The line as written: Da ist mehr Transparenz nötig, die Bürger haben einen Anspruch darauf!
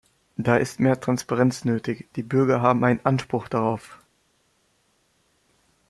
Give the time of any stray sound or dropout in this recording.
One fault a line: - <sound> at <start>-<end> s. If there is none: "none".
none